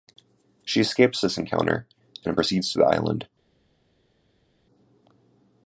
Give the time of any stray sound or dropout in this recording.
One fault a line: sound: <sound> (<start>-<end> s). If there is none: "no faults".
no faults